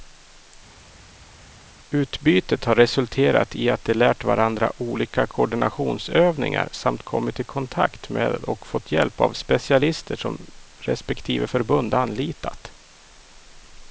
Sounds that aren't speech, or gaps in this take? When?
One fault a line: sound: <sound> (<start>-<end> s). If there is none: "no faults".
no faults